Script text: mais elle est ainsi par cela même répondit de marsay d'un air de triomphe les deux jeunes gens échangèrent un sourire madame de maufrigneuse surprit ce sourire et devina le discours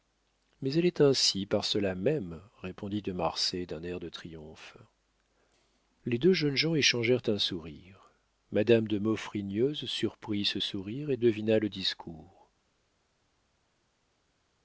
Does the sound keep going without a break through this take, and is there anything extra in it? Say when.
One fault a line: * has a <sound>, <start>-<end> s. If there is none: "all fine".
all fine